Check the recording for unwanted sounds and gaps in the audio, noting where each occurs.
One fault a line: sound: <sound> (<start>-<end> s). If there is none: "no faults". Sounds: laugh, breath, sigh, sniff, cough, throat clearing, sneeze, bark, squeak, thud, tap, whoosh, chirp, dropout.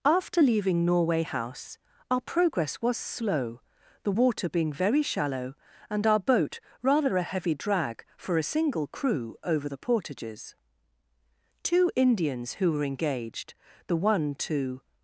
no faults